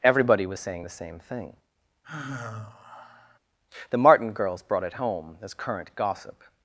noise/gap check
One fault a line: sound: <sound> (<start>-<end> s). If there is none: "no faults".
sound: sigh (2.0-3.4 s)